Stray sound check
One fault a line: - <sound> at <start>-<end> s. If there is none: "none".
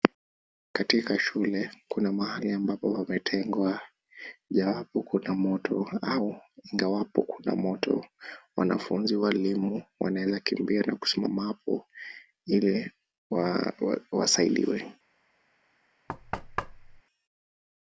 - thud at 16.1-17.0 s